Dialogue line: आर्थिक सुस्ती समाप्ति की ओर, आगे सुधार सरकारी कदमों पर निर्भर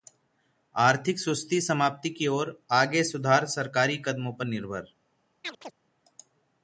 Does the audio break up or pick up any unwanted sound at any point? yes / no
yes